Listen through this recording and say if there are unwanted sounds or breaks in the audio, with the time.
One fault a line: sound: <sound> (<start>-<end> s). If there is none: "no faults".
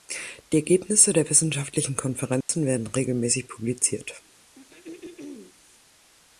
sound: dropout (2.4-2.5 s)
sound: throat clearing (4.5-5.5 s)